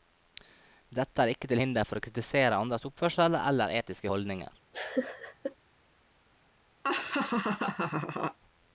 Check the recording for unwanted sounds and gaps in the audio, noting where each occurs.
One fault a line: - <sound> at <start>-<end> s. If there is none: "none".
- laugh at 4.7-5.5 s
- laugh at 6.8-8.4 s